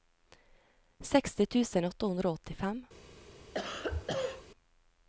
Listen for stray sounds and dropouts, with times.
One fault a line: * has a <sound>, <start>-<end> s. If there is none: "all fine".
* has a cough, 3.5-4.5 s